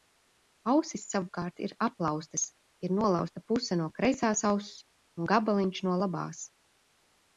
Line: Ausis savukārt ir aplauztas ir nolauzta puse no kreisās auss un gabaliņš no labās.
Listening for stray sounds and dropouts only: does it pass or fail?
pass